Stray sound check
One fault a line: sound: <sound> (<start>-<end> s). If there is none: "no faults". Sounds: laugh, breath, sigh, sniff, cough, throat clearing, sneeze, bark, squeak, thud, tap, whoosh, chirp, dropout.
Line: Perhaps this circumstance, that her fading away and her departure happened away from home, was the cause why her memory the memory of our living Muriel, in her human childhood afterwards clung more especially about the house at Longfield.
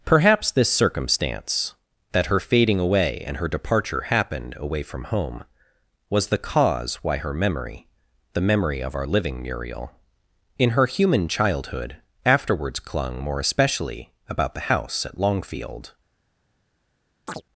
sound: chirp (17.3-17.4 s)